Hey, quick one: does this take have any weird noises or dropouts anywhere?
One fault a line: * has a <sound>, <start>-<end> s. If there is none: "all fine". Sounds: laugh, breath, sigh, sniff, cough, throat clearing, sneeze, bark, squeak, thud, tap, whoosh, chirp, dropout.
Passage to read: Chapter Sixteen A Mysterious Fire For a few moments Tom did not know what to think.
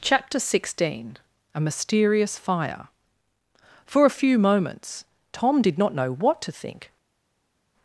all fine